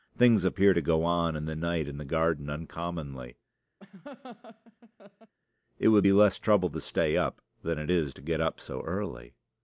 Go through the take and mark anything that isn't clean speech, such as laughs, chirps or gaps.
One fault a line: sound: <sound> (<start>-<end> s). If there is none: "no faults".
sound: laugh (3.8-5.3 s)